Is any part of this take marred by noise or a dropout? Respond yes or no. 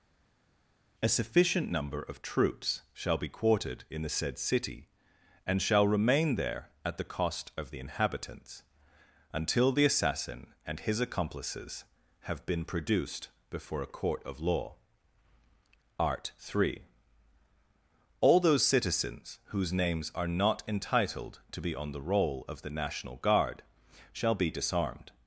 no